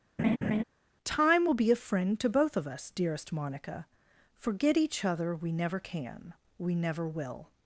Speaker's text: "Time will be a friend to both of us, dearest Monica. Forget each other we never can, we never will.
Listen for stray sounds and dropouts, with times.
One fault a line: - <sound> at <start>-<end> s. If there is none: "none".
- laugh at 0.2-0.6 s